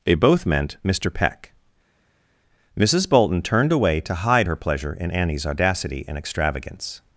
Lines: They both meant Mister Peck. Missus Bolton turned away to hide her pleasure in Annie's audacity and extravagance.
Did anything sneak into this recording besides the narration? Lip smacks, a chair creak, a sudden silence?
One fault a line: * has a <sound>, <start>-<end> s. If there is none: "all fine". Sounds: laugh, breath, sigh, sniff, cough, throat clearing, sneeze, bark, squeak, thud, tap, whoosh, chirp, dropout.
all fine